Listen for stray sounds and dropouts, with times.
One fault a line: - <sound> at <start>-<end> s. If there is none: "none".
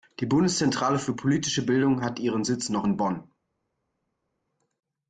none